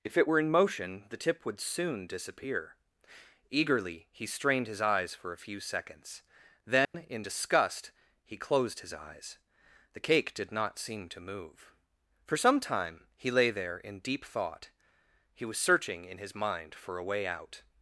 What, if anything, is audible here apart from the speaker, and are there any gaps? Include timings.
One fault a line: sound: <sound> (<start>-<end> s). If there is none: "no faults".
sound: dropout (6.8-6.9 s)